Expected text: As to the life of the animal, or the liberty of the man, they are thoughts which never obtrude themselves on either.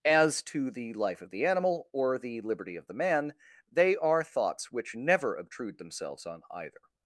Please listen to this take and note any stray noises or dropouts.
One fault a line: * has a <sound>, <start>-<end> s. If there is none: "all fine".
all fine